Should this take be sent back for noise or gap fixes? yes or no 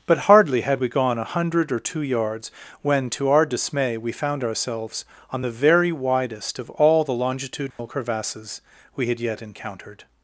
yes